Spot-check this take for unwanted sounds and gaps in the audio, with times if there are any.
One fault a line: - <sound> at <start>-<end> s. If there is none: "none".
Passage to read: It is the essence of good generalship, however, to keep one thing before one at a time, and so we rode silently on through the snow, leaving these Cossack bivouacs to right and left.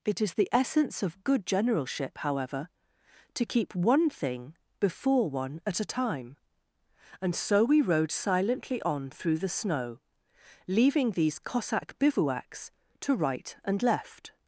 none